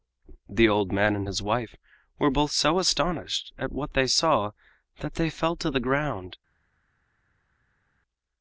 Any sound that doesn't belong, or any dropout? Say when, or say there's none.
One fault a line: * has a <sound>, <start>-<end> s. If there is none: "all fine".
all fine